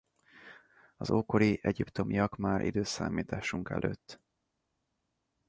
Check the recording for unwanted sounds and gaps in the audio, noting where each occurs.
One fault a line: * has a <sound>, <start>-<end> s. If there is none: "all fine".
all fine